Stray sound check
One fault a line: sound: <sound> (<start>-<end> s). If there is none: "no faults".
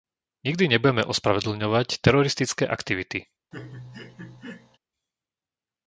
sound: laugh (3.5-4.8 s)